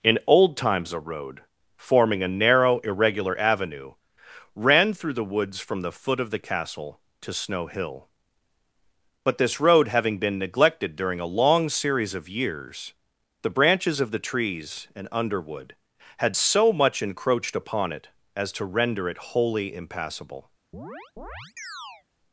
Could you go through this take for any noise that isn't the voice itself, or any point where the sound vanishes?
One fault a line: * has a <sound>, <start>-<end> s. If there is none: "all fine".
* has a chirp, 20.7-22.0 s